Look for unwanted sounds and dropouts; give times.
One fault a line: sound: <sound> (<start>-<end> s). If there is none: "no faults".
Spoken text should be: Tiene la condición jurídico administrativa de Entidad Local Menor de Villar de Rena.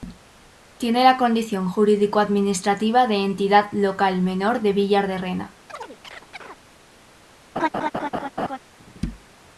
sound: chirp (5.7-6.6 s)
sound: laugh (7.6-8.6 s)